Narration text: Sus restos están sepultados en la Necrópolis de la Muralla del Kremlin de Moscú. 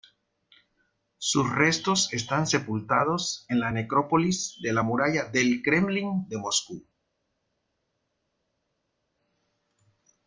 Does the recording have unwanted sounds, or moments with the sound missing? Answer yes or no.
no